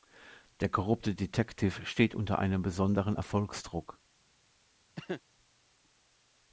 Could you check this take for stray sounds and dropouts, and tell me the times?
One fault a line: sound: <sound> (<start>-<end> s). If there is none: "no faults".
sound: cough (5.0-5.2 s)